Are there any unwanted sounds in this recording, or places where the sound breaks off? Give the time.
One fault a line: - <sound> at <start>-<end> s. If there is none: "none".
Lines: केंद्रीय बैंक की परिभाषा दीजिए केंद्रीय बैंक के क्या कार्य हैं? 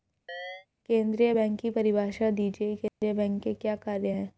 - chirp at 0.3-0.7 s
- dropout at 2.9-3.0 s